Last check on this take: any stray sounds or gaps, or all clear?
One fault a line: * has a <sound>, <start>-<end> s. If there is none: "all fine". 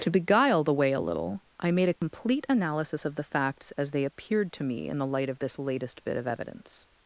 * has a dropout, 2.0-2.0 s